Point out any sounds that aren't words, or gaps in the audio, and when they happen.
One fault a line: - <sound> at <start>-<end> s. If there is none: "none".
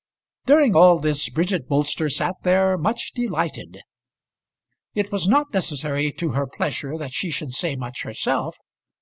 none